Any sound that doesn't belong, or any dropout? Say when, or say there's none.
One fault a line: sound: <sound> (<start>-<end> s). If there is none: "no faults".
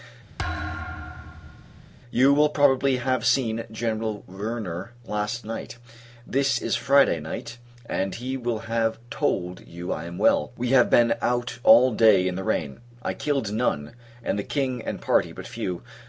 sound: thud (0.4-1.9 s)